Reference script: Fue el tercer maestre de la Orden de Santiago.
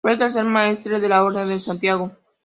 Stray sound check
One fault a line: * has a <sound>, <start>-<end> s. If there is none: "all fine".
all fine